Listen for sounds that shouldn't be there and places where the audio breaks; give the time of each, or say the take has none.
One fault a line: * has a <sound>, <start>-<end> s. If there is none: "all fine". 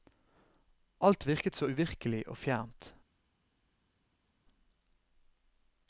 all fine